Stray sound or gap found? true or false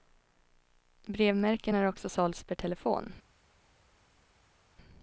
false